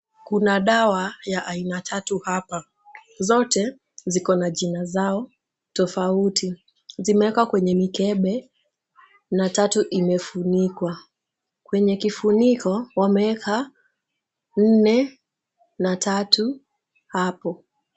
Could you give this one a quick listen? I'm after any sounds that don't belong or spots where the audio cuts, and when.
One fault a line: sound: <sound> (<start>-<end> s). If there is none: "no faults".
no faults